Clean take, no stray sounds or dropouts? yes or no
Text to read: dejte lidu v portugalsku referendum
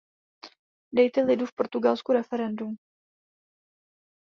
yes